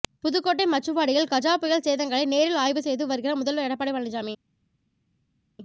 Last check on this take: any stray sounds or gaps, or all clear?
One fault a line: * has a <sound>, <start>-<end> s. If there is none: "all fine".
all fine